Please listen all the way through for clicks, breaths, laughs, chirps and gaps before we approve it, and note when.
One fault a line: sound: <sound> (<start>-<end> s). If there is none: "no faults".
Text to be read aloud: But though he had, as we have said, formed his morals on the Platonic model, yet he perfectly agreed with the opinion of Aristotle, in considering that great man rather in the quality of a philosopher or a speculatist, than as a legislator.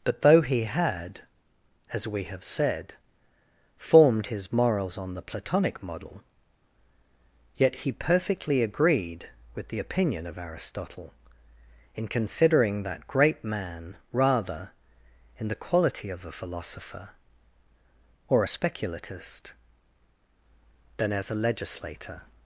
no faults